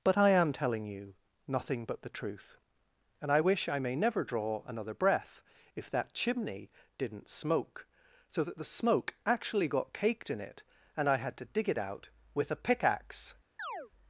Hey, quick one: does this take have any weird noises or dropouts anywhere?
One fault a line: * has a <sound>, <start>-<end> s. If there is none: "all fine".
* has a chirp, 13.6-13.9 s